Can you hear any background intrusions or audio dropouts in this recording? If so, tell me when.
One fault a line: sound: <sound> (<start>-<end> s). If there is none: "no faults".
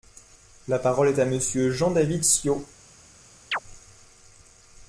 sound: chirp (3.5-3.6 s)